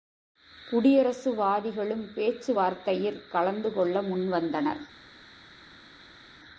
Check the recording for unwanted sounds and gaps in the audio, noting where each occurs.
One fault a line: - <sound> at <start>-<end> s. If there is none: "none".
none